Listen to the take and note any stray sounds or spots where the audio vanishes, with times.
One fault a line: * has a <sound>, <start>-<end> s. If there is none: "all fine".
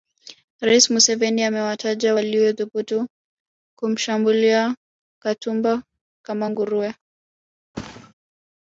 * has a thud, 7.7-8.1 s